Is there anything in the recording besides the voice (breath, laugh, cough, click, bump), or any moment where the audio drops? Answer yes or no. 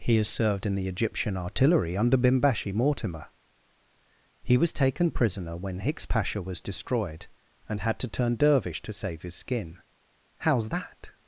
no